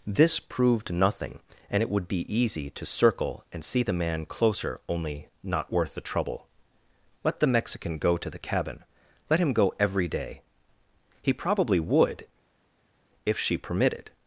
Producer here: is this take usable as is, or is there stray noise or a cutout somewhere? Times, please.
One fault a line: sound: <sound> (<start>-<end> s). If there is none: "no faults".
no faults